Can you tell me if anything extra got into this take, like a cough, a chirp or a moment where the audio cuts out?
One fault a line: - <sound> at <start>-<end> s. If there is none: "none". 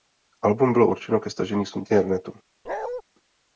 - bark at 2.7-3.0 s